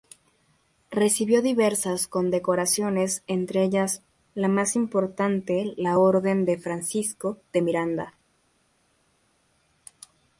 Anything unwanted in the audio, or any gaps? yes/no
no